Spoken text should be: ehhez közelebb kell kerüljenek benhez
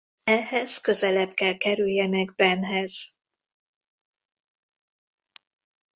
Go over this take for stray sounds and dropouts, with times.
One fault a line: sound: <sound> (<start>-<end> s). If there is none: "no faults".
no faults